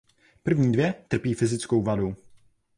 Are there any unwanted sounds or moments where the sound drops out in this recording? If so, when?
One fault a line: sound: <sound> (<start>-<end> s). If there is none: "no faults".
no faults